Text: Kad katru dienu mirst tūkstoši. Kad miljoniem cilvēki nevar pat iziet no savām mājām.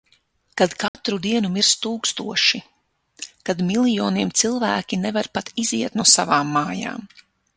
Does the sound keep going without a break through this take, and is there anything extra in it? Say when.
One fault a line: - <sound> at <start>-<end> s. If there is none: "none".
- dropout at 0.9-0.9 s